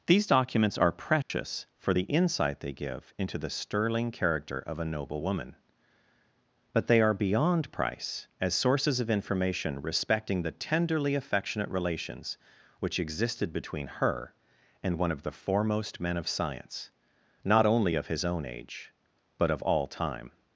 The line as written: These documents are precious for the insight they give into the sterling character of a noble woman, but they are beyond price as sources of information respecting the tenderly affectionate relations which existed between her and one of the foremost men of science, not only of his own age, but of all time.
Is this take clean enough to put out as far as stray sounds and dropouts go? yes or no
no